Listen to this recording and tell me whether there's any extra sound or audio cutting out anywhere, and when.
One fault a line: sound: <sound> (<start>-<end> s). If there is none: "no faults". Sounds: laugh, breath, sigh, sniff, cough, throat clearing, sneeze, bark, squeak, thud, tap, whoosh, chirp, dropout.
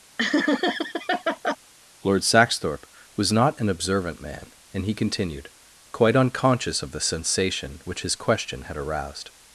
sound: laugh (0.2-1.6 s)